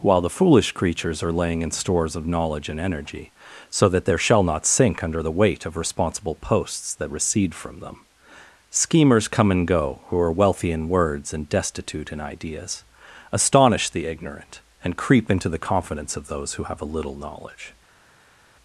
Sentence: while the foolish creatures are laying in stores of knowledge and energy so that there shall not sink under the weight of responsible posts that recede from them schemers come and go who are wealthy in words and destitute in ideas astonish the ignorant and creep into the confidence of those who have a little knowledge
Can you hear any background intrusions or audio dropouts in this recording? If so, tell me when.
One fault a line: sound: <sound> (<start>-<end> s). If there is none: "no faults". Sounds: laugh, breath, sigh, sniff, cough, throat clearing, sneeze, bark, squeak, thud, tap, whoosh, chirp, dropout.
no faults